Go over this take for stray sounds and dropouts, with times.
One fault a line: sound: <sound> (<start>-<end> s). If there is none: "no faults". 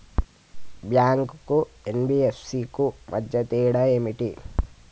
no faults